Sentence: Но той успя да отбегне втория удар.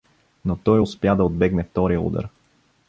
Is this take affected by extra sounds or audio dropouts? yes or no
no